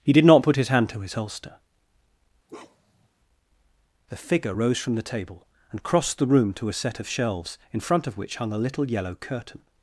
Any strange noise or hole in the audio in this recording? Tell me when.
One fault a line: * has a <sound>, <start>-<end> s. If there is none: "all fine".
* has a bark, 2.5-3.1 s